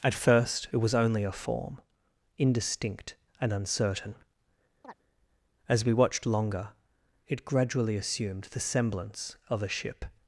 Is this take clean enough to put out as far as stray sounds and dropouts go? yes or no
no